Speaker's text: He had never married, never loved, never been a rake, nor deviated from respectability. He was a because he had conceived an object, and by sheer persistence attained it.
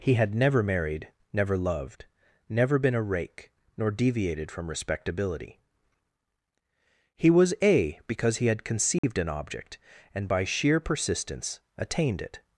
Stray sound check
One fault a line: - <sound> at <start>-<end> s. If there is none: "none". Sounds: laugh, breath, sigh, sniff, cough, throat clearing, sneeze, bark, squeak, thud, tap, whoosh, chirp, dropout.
- dropout at 9.0-9.0 s